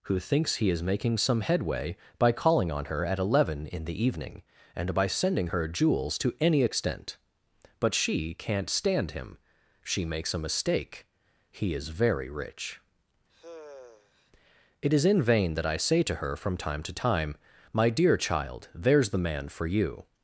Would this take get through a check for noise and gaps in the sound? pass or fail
fail